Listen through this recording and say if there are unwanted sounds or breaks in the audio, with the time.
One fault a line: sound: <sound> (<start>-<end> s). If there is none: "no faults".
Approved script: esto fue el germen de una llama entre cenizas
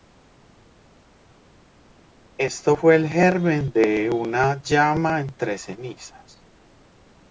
no faults